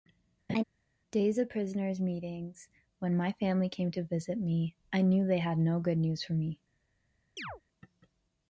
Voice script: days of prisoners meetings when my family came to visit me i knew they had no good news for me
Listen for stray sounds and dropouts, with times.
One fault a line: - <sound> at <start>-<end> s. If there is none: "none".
- laugh at 0.5-0.6 s
- chirp at 7.4-7.6 s